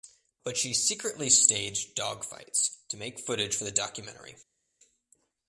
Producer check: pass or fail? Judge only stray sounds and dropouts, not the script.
pass